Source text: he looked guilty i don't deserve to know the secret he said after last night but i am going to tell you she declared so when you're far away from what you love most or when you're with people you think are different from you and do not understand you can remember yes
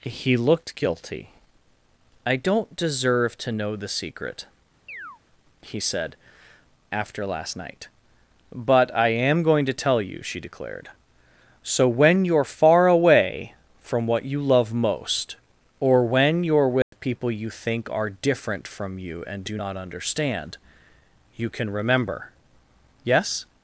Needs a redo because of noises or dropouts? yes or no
yes